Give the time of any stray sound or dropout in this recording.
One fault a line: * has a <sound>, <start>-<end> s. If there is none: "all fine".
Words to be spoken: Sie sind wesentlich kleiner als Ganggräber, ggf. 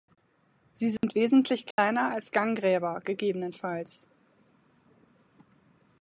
* has a dropout, 1.0-1.0 s
* has a dropout, 1.7-1.8 s